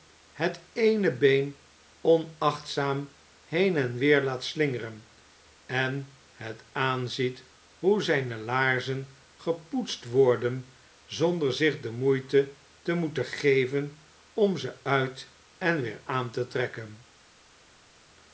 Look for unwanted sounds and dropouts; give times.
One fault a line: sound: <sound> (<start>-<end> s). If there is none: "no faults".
no faults